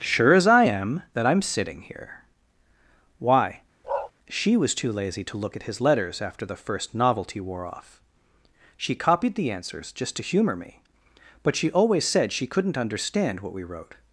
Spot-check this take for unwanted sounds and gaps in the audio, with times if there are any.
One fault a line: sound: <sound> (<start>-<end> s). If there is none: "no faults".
sound: bark (3.8-4.1 s)